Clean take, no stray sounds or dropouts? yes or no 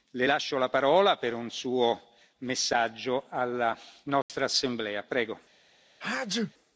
no